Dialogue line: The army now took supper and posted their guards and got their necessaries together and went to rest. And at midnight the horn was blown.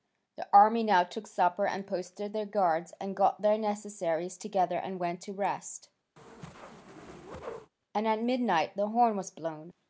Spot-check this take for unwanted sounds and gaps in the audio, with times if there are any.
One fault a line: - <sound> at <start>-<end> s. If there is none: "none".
- whoosh at 6.2-7.7 s